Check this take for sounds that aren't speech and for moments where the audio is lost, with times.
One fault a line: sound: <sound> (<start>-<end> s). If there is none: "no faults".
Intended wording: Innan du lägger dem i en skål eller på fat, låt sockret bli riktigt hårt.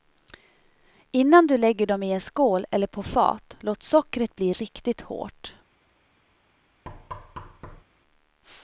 sound: thud (6.9-7.8 s)